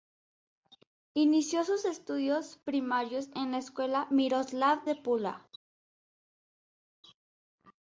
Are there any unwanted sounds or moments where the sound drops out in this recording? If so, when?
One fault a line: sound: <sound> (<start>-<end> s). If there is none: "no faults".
no faults